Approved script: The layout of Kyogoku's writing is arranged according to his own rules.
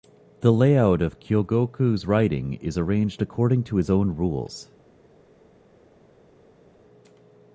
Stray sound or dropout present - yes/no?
no